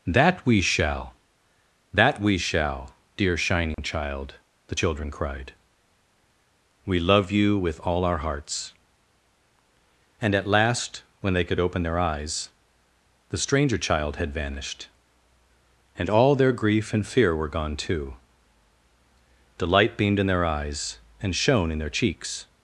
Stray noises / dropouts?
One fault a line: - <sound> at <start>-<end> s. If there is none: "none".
- dropout at 3.7-3.8 s